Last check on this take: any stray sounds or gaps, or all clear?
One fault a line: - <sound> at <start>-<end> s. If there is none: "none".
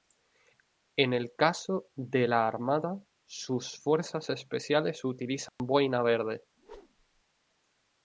- dropout at 5.5-5.6 s
- whoosh at 6.6-7.2 s